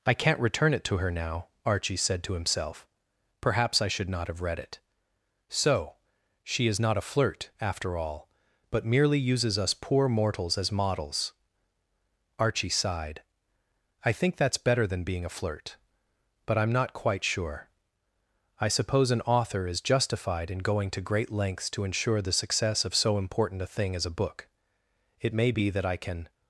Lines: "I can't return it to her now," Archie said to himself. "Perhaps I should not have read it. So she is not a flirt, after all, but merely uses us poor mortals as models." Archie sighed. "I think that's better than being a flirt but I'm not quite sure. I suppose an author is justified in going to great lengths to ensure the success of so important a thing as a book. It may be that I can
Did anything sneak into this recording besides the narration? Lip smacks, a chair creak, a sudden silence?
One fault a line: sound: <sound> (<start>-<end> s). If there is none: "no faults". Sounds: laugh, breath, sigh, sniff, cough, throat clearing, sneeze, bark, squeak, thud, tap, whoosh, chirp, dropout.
no faults